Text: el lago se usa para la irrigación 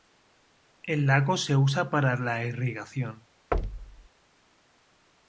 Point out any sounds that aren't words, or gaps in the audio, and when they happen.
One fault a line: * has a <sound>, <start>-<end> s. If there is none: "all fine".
* has a thud, 3.5-4.1 s